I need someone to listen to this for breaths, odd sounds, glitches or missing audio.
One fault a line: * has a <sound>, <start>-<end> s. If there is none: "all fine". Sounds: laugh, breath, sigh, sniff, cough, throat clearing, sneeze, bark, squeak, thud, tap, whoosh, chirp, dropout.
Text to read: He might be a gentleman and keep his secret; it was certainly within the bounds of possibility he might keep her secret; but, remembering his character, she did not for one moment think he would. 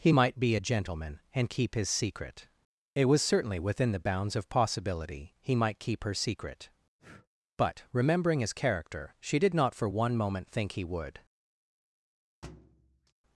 * has a breath, 7.0-7.3 s
* has a thud, 12.4-13.1 s